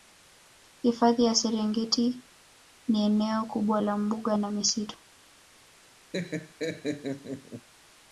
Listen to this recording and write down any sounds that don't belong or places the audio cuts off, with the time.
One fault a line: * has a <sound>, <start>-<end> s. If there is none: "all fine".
* has a laugh, 6.1-7.7 s